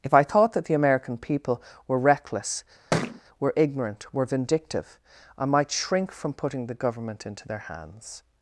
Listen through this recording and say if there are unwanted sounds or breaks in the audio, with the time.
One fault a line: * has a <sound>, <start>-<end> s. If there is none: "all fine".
* has a thud, 2.9-3.2 s